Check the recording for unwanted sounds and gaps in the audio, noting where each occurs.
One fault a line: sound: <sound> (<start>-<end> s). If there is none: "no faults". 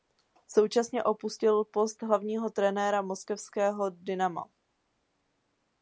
no faults